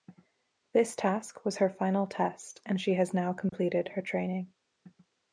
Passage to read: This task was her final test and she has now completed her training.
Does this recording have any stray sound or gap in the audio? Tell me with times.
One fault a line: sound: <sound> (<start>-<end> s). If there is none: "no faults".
sound: dropout (3.5-3.5 s)